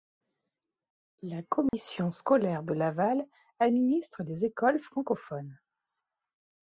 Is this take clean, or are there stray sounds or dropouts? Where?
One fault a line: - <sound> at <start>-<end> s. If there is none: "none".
- dropout at 1.7-1.7 s